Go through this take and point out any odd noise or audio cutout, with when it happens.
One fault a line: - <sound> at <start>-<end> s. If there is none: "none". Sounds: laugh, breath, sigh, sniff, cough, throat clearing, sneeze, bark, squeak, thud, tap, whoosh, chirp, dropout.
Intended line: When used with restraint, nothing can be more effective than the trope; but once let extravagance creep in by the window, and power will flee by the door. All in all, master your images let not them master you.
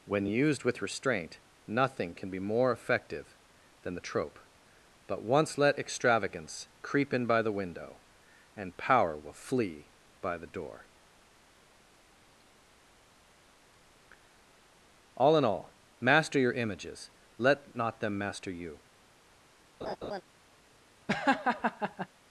- laugh at 19.8-20.2 s
- laugh at 21.1-22.1 s